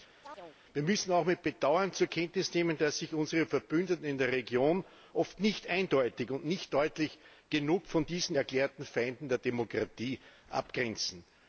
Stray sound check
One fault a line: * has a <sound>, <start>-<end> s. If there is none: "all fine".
* has a chirp, 0.2-0.6 s